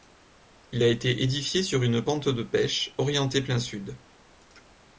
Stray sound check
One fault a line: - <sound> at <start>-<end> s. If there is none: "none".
none